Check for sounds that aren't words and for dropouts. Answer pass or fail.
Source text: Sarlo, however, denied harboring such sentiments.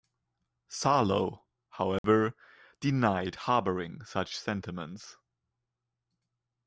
fail